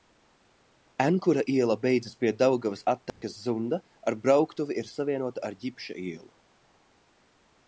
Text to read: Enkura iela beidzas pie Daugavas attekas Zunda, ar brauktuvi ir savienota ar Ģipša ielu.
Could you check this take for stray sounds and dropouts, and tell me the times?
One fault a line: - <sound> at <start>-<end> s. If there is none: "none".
- dropout at 3.1-3.2 s